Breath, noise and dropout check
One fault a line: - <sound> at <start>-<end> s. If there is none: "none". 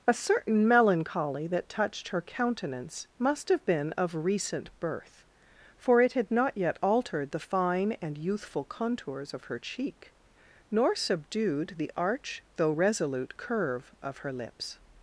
none